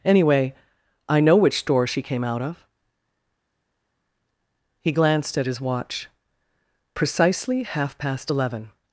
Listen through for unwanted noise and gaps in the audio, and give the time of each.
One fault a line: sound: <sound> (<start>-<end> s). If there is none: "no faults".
no faults